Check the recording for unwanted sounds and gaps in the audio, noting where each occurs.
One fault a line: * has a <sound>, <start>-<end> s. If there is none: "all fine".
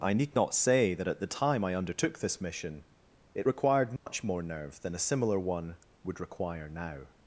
* has a dropout, 4.0-4.1 s